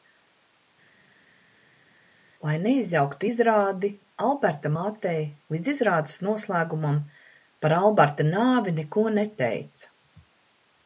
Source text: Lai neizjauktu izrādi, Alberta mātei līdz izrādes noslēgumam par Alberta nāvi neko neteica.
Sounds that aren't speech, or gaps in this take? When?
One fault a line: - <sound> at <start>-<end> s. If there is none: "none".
none